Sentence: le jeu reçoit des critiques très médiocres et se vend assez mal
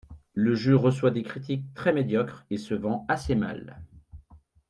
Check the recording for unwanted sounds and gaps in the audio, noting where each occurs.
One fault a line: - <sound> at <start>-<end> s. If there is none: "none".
none